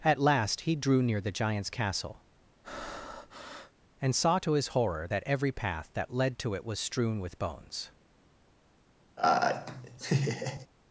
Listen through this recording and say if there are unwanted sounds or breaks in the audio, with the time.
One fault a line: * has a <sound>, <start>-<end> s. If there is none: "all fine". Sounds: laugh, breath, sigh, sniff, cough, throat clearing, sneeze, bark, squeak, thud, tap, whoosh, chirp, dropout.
* has a breath, 2.6-3.7 s
* has a laugh, 9.2-10.7 s